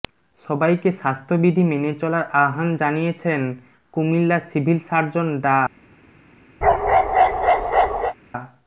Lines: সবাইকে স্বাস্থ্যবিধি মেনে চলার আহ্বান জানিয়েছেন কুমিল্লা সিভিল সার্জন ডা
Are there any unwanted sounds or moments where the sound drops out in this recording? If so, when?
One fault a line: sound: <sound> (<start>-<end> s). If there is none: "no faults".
sound: bark (6.6-8.1 s)